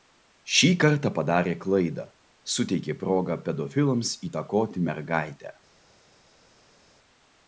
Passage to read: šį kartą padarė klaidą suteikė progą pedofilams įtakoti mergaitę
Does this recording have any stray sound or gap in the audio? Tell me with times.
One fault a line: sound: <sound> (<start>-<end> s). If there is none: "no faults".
no faults